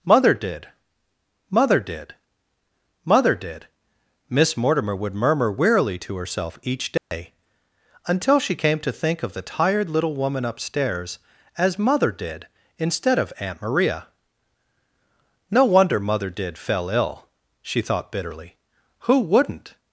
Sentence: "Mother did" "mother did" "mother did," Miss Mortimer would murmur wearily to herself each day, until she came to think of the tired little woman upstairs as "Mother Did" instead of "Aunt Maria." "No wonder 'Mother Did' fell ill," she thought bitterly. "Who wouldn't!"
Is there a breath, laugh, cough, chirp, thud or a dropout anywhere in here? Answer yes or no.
yes